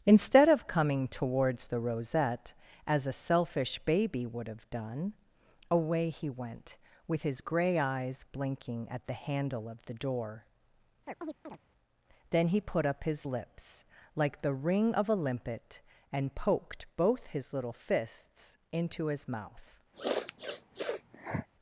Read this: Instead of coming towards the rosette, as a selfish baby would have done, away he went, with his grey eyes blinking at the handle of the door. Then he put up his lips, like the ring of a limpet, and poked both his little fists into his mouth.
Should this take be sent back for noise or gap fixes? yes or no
yes